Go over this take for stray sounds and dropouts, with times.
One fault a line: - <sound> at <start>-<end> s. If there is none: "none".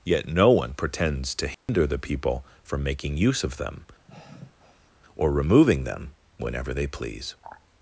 - dropout at 1.5-1.7 s
- sigh at 4.1-4.9 s